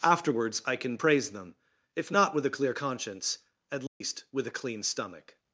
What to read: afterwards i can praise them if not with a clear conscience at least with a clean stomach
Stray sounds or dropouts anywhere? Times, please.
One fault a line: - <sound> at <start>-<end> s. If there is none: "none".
- dropout at 3.9-4.0 s